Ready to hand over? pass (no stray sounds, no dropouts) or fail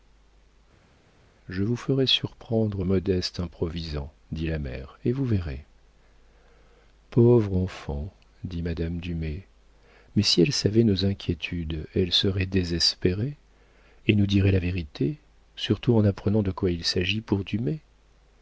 pass